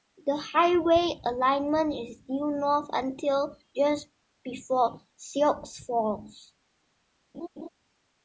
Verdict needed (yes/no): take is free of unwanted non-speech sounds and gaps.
no